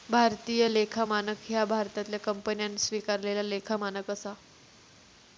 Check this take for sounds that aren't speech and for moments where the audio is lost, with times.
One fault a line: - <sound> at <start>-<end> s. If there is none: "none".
none